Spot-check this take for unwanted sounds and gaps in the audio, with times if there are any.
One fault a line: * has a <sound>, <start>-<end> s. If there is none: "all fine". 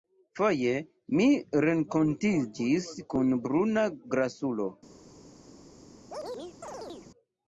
* has a chirp, 6.1-7.1 s